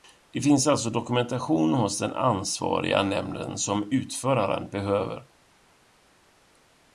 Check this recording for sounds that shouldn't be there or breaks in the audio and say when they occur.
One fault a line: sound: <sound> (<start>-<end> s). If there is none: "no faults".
no faults